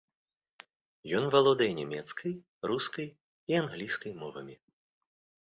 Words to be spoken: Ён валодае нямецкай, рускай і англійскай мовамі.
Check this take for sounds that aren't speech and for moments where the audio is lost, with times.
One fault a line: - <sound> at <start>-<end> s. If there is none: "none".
none